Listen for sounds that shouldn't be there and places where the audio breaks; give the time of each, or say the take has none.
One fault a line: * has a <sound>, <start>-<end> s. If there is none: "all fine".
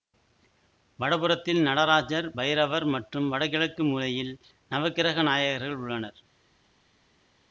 all fine